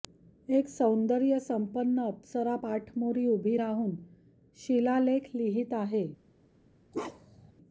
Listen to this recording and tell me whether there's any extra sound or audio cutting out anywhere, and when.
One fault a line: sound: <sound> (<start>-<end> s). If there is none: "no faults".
sound: bark (6.9-7.5 s)